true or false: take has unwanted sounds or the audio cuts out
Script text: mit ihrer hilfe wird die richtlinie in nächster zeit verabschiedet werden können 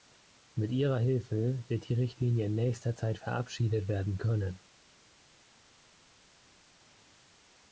false